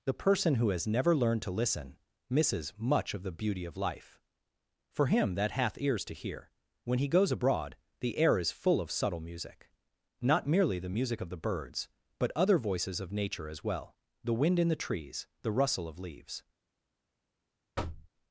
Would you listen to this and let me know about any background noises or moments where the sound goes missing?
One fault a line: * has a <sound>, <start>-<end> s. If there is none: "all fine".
* has a thud, 17.8-18.1 s